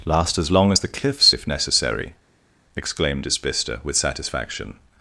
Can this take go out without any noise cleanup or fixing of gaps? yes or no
yes